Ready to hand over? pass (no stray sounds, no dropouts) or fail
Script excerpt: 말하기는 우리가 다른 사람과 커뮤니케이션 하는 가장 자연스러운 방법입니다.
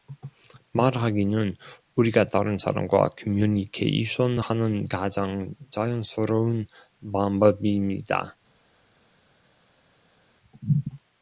pass